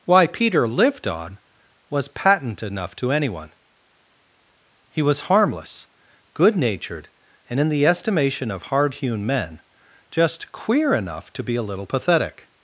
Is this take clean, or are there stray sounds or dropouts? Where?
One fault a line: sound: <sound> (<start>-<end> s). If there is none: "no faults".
no faults